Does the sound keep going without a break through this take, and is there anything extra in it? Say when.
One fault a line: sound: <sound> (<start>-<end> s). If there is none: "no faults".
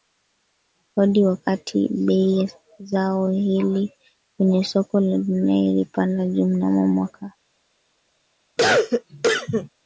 sound: cough (8.6-9.7 s)